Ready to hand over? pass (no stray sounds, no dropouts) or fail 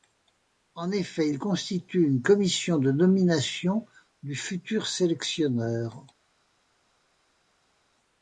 pass